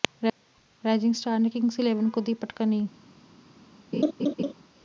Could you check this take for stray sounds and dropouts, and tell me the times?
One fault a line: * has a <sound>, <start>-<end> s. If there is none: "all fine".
* has a laugh, 3.9-4.5 s